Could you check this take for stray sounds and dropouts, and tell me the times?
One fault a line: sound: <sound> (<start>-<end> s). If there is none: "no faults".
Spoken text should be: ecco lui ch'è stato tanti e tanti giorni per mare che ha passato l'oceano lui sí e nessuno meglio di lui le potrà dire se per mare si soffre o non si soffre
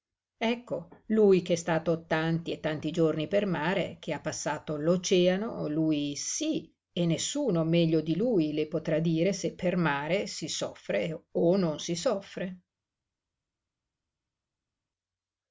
no faults